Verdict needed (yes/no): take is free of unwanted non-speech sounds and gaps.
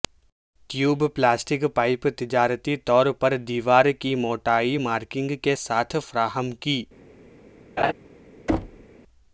no